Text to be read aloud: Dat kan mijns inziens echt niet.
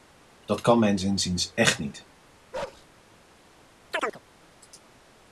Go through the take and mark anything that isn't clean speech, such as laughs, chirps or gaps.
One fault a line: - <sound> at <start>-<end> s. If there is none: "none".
- bark at 2.5-2.9 s
- chirp at 3.9-4.2 s